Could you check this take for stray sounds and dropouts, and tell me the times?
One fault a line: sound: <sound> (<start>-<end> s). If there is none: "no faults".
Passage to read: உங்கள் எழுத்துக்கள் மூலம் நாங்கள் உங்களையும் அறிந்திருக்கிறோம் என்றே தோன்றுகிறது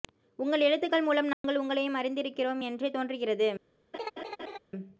sound: dropout (1.3-1.4 s)
sound: laugh (3.9-4.6 s)